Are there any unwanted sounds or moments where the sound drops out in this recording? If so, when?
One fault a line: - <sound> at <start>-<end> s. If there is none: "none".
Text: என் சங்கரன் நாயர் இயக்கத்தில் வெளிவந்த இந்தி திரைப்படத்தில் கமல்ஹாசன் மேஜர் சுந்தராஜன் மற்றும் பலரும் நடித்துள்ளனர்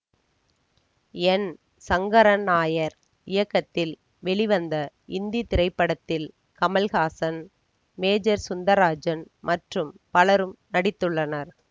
none